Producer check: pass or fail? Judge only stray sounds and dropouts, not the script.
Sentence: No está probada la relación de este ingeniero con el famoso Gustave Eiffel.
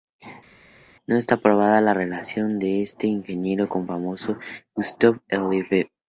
pass